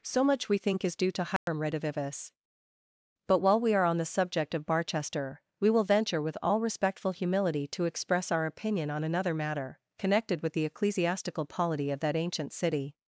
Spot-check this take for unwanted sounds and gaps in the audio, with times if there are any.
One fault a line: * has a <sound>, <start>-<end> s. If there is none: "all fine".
* has a dropout, 1.4-1.5 s